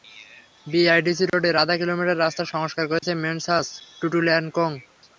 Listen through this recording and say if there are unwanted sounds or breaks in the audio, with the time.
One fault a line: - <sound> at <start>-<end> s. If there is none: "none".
- dropout at 1.3-1.3 s
- dropout at 3.0-3.0 s